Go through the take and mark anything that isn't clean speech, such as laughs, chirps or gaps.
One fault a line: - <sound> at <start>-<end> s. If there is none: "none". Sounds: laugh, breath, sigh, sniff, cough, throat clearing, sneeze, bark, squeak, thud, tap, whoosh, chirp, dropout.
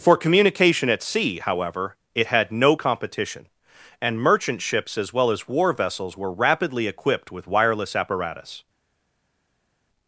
none